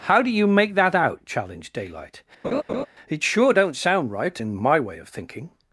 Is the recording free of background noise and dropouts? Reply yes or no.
no